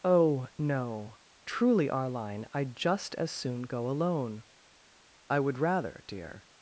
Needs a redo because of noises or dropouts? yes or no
no